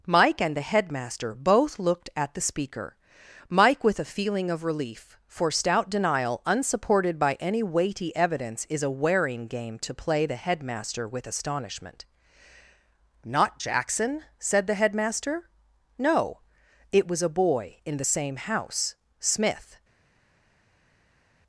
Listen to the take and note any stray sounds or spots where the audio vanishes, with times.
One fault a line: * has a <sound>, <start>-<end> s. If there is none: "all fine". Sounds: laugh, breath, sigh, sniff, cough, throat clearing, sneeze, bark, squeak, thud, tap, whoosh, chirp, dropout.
all fine